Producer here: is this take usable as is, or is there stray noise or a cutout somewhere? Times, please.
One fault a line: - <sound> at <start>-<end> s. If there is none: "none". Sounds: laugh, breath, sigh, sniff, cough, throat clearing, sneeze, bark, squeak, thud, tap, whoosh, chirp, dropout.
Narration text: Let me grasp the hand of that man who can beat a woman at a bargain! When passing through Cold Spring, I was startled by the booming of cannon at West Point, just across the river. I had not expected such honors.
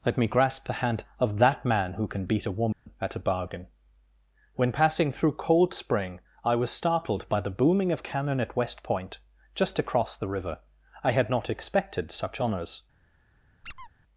- dropout at 2.7-2.9 s
- squeak at 13.6-13.9 s